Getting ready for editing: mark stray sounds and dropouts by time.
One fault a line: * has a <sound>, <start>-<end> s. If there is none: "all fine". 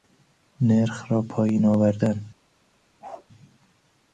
* has a bark, 3.0-3.3 s